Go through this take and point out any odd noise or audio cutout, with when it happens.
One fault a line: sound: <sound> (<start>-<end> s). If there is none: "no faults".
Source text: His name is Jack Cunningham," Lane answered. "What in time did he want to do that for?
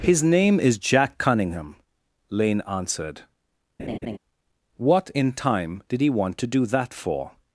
sound: laugh (3.8-4.2 s)